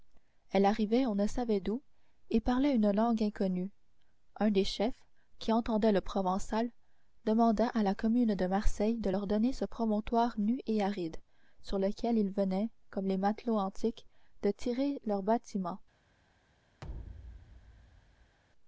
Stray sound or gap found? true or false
true